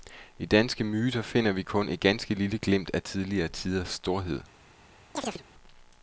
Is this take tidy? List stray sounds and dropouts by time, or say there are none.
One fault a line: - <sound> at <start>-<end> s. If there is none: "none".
- chirp at 5.2-5.4 s